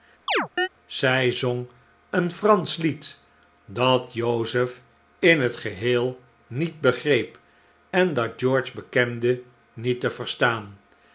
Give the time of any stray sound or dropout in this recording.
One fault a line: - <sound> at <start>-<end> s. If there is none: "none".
- chirp at 0.3-0.7 s